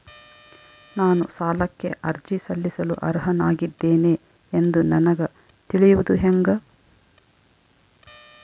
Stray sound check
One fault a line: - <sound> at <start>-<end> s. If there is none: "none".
none